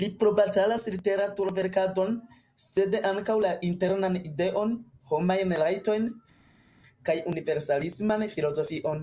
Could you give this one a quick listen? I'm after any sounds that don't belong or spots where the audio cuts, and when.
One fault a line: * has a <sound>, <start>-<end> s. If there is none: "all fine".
all fine